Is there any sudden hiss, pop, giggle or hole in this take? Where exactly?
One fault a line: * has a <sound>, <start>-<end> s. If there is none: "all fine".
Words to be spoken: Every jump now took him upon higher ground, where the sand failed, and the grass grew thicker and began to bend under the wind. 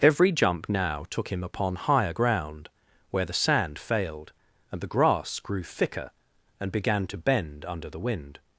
all fine